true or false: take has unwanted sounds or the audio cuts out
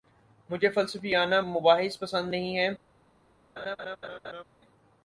true